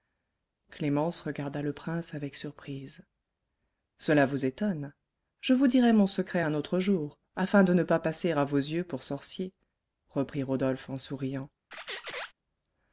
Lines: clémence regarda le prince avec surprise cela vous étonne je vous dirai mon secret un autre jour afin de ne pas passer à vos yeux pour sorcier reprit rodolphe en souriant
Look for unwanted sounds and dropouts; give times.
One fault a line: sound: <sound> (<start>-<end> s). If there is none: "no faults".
sound: squeak (11.7-12.3 s)